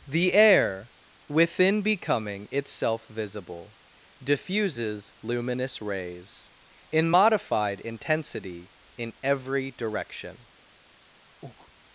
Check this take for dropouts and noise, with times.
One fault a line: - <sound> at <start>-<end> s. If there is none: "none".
- breath at 11.4-11.7 s